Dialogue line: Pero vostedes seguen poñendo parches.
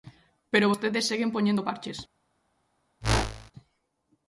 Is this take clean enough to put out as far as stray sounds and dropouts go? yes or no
no